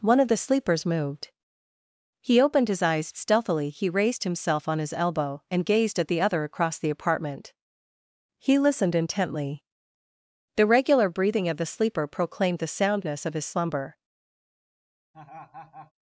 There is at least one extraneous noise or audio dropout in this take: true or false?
true